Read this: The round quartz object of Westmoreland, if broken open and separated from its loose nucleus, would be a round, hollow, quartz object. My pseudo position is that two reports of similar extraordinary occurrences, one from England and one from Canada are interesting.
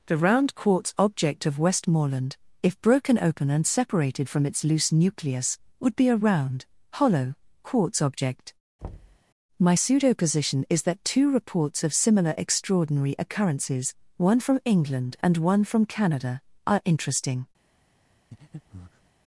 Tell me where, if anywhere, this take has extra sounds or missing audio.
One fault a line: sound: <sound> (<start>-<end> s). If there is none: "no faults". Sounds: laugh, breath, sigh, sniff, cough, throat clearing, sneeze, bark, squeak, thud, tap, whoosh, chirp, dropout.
sound: thud (8.8-9.2 s)
sound: breath (18.3-19.1 s)